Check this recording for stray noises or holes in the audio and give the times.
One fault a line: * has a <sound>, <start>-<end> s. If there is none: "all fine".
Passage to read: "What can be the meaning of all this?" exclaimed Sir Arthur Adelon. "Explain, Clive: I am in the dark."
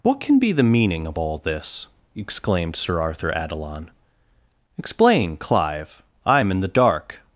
all fine